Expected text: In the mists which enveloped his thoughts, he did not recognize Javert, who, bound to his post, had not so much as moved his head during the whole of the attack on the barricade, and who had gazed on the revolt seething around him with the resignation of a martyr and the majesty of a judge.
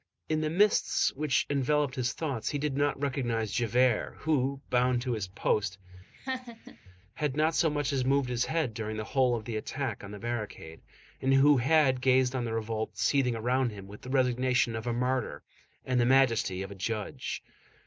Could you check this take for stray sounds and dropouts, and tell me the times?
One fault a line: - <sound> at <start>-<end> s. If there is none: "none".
- laugh at 6.1-6.8 s